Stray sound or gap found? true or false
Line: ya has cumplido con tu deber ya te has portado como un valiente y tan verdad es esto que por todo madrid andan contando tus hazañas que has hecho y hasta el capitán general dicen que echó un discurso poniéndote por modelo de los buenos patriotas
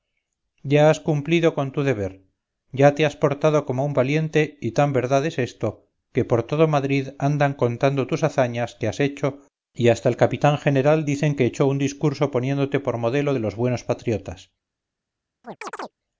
true